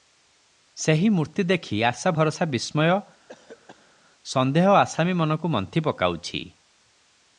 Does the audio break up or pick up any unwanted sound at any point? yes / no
yes